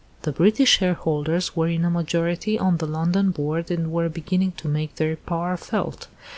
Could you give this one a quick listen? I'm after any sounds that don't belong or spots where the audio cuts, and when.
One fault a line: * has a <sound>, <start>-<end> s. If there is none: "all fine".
all fine